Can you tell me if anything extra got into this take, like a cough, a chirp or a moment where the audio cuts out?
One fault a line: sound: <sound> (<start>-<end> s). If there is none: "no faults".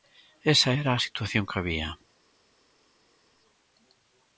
no faults